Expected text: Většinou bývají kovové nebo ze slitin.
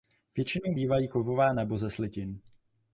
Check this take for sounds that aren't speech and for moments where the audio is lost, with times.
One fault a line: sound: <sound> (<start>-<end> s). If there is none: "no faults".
no faults